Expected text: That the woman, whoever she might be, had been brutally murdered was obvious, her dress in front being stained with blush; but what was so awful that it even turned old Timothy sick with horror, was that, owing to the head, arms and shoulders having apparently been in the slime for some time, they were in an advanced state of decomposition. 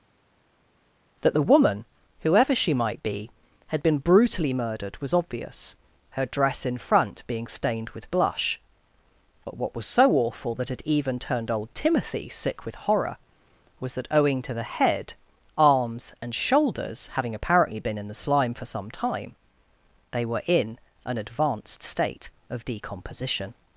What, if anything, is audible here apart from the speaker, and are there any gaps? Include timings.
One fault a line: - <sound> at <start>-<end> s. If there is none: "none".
none